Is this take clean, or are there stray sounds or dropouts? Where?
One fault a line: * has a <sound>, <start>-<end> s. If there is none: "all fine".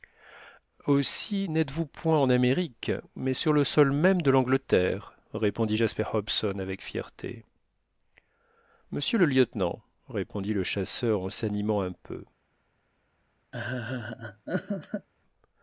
* has a laugh, 13.5-15.1 s